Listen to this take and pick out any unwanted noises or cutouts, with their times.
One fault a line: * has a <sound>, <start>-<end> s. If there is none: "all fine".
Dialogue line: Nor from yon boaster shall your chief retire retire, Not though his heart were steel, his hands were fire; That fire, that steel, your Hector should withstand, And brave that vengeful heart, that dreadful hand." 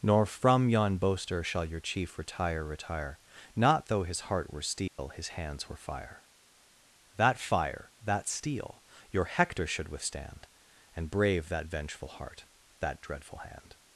* has a dropout, 4.9-5.0 s